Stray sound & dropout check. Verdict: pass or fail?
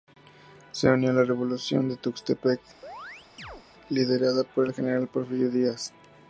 fail